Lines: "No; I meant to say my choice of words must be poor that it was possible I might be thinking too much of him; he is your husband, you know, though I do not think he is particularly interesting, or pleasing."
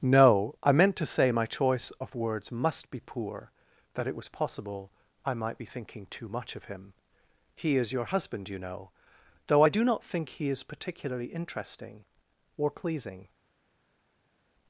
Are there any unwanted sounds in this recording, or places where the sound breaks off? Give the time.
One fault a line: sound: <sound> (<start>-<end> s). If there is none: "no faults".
no faults